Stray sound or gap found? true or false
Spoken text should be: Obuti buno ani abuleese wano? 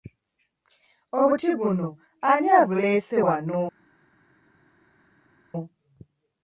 false